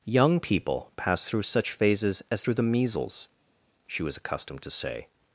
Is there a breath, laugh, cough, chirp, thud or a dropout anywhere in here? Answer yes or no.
no